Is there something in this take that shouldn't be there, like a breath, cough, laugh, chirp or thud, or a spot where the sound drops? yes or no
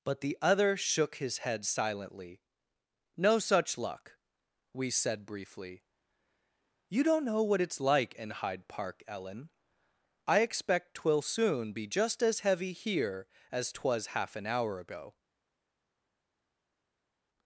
no